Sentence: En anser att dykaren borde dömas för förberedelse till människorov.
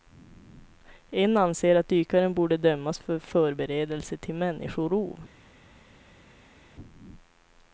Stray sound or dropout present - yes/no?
no